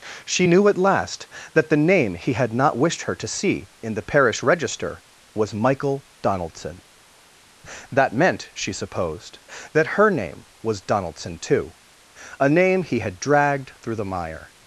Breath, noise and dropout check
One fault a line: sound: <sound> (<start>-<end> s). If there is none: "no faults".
no faults